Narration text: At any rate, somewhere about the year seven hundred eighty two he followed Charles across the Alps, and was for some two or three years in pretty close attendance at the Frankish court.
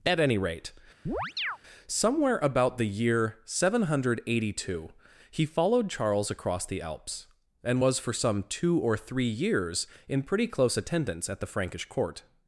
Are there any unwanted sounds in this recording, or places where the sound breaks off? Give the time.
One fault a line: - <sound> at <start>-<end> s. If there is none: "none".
- chirp at 1.1-1.6 s